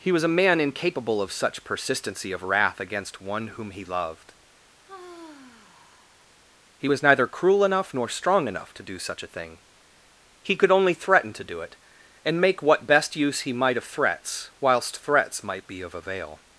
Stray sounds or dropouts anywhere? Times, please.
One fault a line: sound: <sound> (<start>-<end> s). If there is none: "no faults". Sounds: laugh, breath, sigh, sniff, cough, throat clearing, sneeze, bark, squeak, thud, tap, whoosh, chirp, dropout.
sound: sigh (4.8-6.3 s)